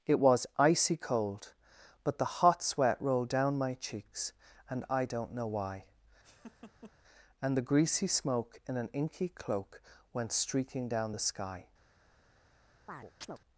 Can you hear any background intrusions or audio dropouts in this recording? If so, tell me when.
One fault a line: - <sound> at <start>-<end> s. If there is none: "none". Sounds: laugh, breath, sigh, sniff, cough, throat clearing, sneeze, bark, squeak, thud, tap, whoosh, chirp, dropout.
- laugh at 6.2-6.9 s
- chirp at 12.9-13.4 s